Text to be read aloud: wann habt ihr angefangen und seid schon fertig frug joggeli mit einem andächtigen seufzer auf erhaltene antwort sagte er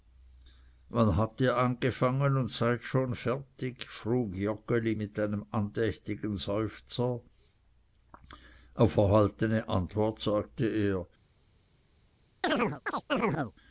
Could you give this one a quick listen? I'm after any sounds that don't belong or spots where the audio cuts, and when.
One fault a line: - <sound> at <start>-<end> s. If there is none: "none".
- chirp at 12.4-13.5 s